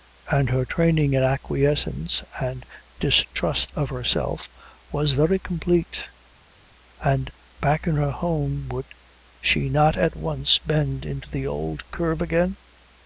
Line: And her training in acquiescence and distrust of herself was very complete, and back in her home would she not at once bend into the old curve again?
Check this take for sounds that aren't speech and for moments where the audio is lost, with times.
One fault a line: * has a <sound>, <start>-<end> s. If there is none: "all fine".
all fine